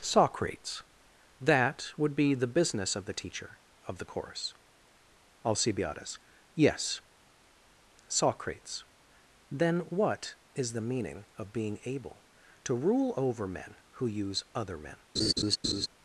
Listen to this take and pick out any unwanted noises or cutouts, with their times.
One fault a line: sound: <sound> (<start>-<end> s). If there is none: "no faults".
sound: laugh (15.2-15.9 s)